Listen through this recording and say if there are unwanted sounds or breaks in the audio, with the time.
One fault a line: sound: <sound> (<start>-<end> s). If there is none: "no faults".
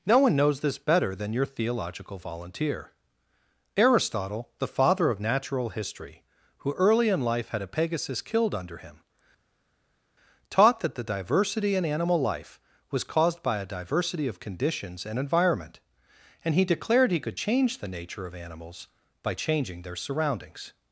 no faults